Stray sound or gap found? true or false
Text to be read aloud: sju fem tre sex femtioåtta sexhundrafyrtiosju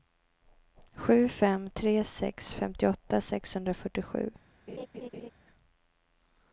true